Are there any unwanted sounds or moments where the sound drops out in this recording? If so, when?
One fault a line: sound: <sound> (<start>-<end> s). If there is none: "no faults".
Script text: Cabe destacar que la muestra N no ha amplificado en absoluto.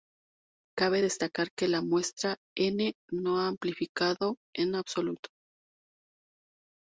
no faults